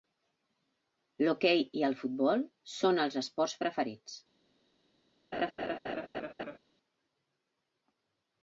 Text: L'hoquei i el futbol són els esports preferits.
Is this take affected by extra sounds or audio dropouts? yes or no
yes